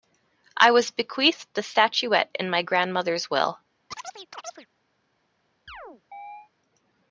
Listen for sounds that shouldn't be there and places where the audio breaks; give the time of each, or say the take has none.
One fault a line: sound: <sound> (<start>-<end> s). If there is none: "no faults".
sound: chirp (3.9-4.7 s)
sound: chirp (5.7-6.5 s)